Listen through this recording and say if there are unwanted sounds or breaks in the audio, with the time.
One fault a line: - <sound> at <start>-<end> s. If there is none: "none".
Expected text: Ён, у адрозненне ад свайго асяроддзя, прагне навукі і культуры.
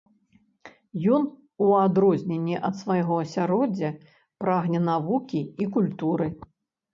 none